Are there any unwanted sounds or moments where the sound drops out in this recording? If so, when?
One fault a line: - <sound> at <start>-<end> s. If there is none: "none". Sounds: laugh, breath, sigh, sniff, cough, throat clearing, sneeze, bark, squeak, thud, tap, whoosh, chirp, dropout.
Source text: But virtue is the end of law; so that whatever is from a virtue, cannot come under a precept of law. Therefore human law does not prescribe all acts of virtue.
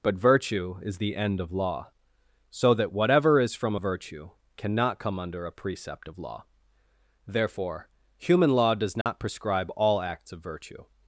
- dropout at 9.0-9.1 s